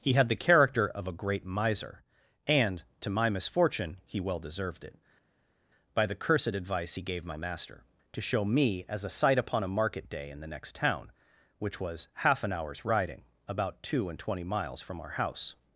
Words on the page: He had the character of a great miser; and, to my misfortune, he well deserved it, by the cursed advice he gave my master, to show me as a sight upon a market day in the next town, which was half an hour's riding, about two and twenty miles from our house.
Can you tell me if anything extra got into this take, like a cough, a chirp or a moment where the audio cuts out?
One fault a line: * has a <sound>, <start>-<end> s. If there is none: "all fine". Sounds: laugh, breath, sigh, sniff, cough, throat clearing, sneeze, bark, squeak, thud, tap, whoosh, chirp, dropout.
all fine